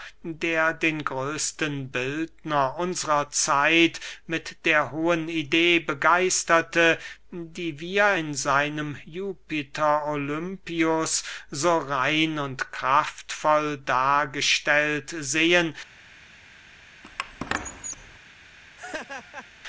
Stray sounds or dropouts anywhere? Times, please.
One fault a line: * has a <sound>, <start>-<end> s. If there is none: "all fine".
* has a squeak, 17.0-18.2 s
* has a laugh, 18.8-19.5 s